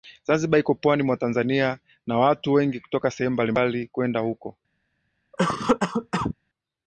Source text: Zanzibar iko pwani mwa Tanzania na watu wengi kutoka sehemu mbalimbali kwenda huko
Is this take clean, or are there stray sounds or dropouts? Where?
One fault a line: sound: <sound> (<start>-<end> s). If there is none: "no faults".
sound: cough (5.3-6.3 s)